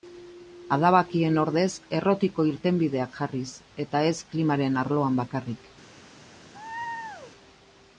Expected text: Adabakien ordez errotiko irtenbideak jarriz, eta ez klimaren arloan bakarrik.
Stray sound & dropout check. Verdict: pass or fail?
fail